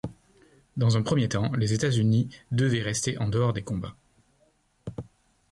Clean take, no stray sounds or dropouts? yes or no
yes